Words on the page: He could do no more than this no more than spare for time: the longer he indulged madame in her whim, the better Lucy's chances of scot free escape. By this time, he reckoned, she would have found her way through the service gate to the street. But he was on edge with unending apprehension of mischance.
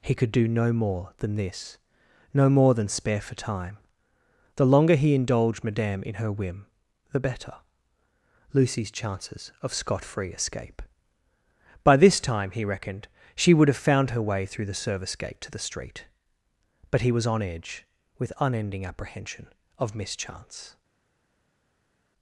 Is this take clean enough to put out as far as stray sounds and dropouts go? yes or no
yes